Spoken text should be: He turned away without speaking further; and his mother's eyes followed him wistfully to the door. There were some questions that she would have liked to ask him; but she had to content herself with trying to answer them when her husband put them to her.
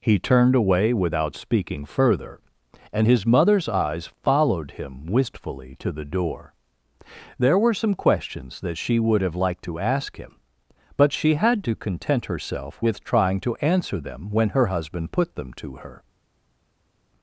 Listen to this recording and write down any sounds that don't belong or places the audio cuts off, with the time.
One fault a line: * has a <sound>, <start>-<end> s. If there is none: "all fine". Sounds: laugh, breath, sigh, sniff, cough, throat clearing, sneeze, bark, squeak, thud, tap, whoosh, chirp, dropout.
all fine